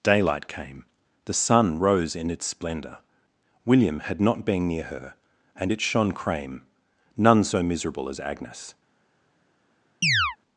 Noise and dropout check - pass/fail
fail